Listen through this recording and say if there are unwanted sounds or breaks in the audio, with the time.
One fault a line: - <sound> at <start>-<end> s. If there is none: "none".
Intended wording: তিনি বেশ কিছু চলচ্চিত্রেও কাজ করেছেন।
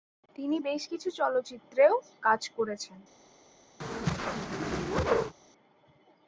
- whoosh at 3.8-5.3 s